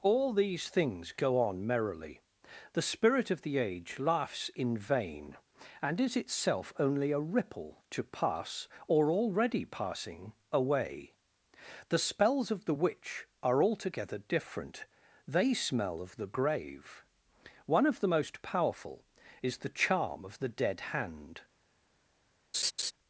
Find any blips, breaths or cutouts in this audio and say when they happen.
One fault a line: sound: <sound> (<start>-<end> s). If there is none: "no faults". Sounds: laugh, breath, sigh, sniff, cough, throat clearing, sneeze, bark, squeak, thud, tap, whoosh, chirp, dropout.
sound: laugh (22.5-22.9 s)